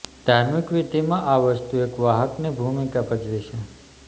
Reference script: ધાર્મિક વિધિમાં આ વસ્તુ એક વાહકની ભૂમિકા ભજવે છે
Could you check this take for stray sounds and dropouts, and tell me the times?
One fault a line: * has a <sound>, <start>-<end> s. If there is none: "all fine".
all fine